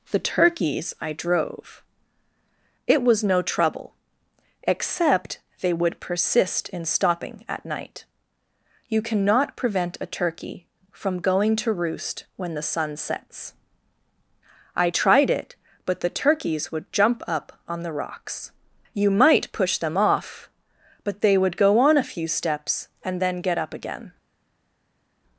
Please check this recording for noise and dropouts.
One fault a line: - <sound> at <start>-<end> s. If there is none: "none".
none